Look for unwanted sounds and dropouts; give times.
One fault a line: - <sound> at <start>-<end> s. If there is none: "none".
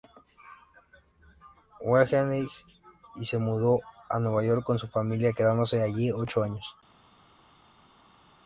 none